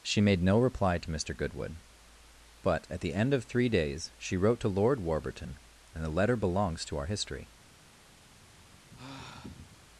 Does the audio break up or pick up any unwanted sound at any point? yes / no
yes